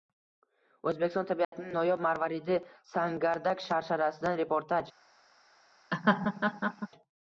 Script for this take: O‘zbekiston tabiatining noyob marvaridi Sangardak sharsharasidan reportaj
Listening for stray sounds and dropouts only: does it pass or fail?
fail